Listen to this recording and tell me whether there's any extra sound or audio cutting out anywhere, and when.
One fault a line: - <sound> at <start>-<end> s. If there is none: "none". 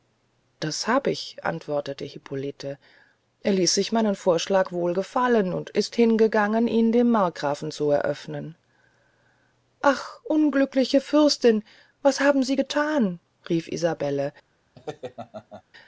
- laugh at 14.8-15.6 s